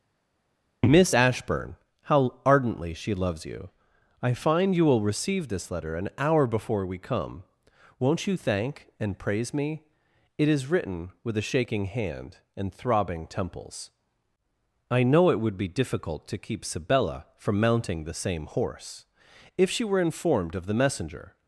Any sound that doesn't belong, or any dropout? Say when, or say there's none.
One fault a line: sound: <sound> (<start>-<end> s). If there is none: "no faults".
no faults